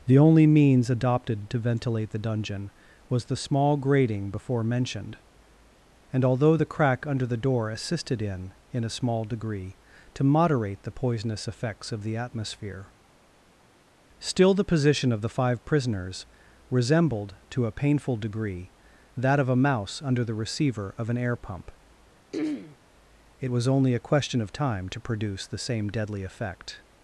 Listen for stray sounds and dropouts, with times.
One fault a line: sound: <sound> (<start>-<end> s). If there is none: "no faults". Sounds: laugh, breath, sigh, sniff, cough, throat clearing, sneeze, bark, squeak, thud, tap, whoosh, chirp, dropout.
sound: throat clearing (22.3-22.8 s)